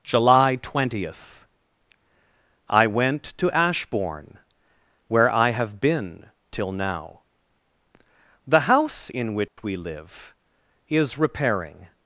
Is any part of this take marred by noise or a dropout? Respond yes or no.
yes